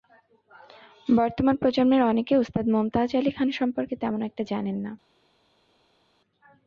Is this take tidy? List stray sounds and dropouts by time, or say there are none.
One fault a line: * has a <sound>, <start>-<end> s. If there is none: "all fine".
all fine